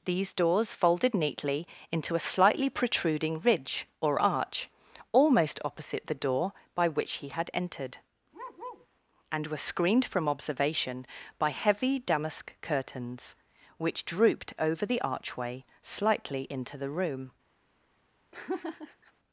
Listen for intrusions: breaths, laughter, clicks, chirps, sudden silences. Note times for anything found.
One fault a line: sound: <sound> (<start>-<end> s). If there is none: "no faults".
sound: bark (8.3-8.9 s)
sound: laugh (18.3-19.1 s)